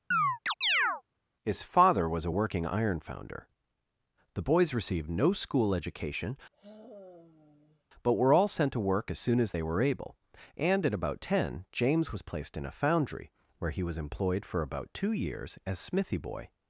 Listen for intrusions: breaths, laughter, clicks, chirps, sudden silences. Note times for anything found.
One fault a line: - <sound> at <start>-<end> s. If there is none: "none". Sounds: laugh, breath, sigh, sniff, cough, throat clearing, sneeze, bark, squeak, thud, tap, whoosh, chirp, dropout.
- chirp at 0.1-1.0 s
- sigh at 6.5-7.8 s